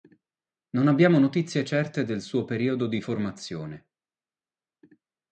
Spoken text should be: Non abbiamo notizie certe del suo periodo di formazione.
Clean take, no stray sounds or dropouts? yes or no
yes